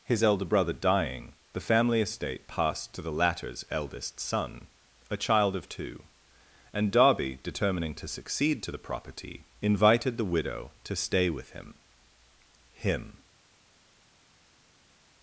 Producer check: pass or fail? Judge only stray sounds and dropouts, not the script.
pass